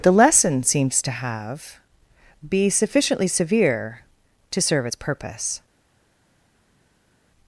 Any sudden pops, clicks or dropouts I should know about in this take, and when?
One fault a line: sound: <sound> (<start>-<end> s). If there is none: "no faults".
no faults